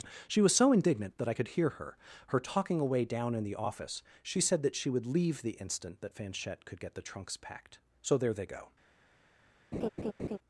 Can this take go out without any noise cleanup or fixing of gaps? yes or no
no